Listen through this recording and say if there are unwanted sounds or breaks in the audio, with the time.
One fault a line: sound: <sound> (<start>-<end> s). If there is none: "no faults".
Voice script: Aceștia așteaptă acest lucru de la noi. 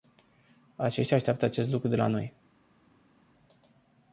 no faults